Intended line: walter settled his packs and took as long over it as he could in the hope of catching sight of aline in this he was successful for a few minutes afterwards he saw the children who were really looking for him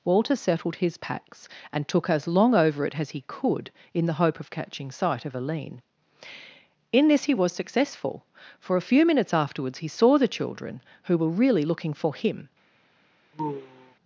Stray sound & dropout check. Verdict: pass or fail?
fail